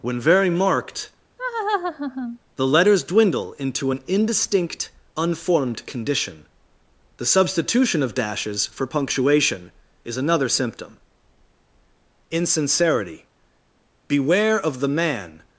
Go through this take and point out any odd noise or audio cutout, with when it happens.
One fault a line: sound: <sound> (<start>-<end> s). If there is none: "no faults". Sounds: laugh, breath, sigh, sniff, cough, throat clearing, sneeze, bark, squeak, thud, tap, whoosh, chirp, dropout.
sound: laugh (1.4-2.4 s)